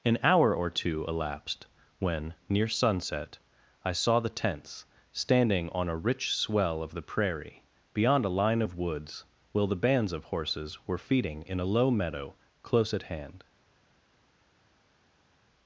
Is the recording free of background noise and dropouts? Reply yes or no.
yes